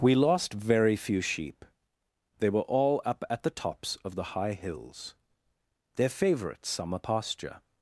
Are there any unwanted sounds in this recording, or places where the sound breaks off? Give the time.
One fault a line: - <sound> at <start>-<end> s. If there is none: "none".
none